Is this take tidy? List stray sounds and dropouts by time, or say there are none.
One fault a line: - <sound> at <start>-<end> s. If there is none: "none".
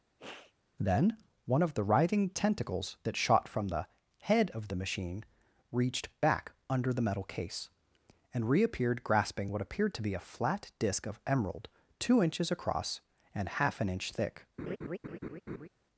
- sniff at 0.2-0.5 s
- laugh at 14.6-15.7 s